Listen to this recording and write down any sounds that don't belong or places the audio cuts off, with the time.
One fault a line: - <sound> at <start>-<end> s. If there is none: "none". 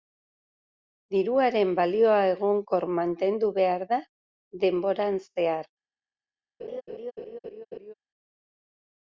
- laugh at 6.6-7.9 s